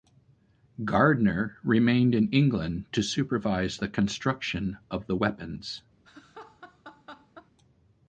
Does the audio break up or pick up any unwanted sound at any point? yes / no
yes